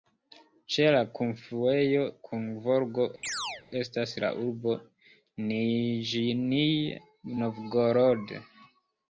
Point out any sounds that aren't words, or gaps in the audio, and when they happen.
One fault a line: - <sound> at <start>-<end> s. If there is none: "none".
- chirp at 3.2-3.6 s